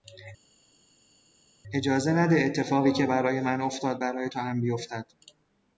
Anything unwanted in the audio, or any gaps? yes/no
no